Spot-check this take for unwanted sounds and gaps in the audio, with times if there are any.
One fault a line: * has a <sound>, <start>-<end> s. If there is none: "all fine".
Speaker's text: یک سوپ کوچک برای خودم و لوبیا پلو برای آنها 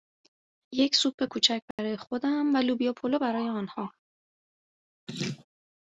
* has a dropout, 1.7-1.8 s
* has a laugh, 5.1-5.5 s